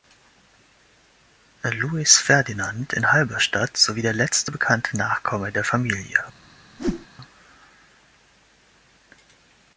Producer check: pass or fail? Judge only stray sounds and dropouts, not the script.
fail